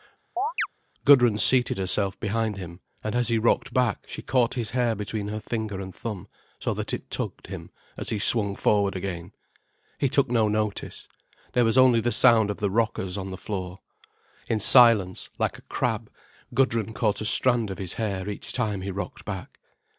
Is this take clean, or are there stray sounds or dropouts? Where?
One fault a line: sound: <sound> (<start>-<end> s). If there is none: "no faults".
sound: chirp (0.4-0.7 s)